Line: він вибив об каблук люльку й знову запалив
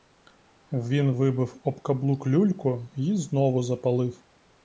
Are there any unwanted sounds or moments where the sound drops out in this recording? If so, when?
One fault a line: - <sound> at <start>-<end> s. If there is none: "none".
none